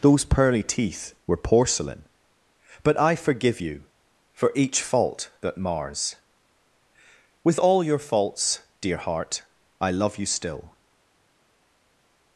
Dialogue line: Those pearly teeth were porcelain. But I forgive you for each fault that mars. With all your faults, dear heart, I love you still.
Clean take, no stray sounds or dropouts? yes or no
yes